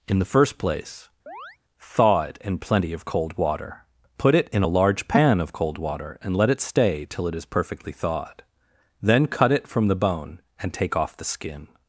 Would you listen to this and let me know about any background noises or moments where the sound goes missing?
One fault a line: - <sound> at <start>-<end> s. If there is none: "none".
- chirp at 1.3-1.6 s